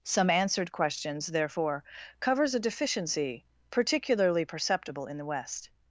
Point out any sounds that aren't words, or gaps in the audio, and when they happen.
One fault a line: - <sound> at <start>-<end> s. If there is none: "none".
none